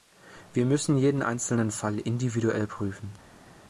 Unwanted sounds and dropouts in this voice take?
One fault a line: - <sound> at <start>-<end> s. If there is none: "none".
none